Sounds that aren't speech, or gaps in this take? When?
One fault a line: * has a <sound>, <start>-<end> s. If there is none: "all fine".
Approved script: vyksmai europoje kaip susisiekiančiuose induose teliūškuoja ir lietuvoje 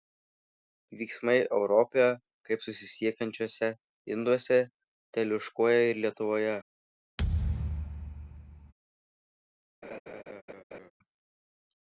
* has a thud, 7.2-8.7 s
* has a laugh, 9.8-10.9 s